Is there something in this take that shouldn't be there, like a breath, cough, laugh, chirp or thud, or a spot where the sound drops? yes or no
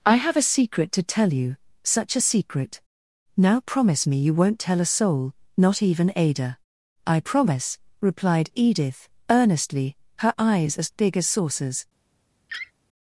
yes